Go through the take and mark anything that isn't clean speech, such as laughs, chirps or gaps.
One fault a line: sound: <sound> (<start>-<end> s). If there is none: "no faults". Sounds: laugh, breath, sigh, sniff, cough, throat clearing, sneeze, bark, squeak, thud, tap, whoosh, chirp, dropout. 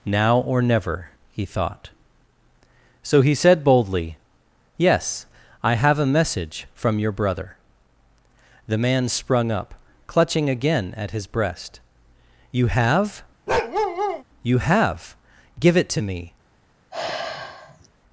sound: bark (13.5-14.2 s)
sound: sigh (16.9-17.9 s)